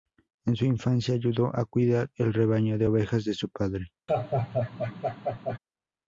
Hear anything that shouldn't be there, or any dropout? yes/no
yes